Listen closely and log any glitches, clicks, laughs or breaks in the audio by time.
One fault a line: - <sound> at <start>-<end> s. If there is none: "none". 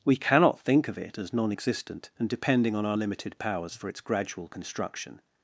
none